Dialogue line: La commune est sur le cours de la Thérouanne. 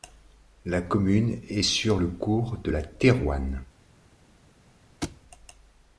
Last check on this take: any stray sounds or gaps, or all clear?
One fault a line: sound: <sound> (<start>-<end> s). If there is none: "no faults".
sound: thud (5.0-5.2 s)